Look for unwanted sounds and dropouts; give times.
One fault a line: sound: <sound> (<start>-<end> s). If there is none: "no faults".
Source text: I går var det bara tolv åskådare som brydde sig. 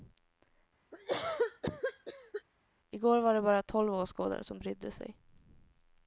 sound: cough (0.9-2.4 s)